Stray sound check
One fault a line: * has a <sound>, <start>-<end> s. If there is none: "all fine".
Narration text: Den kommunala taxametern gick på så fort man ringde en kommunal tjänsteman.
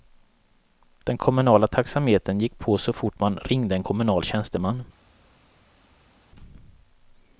all fine